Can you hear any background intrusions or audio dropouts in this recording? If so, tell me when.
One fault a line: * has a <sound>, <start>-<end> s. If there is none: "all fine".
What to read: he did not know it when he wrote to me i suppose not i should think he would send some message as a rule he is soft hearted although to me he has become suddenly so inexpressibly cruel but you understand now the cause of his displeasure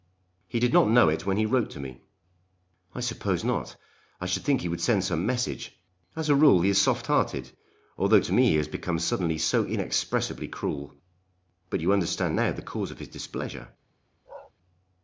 * has a bark, 14.3-14.5 s